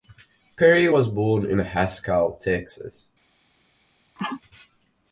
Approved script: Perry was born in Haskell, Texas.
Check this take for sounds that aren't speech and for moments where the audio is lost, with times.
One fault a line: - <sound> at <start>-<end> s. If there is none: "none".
- sneeze at 4.2-4.4 s